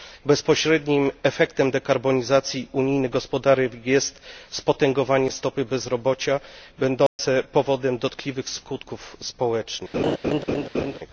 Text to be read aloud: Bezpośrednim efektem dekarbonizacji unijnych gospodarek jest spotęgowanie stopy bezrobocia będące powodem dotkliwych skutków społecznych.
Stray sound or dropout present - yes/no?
yes